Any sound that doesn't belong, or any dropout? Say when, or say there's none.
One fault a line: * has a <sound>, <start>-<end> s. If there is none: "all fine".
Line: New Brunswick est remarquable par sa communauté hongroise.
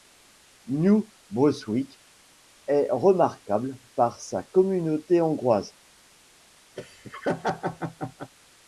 * has a laugh, 6.8-8.3 s